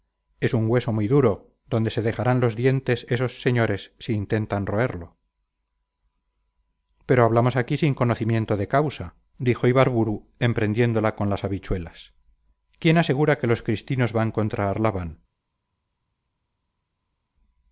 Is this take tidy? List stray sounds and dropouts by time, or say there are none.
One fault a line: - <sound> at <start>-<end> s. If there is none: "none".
none